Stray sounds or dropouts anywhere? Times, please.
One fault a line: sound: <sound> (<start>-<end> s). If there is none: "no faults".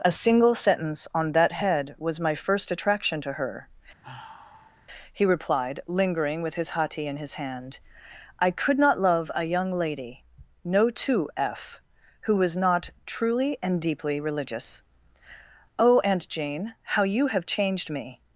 sound: sigh (4.0-4.9 s)